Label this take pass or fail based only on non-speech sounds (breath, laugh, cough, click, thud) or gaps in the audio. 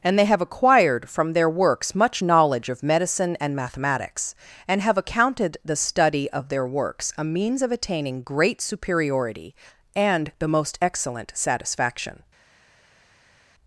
pass